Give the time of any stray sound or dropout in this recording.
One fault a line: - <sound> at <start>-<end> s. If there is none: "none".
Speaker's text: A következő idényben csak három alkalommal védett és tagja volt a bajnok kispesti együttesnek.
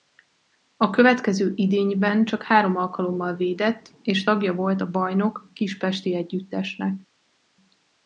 none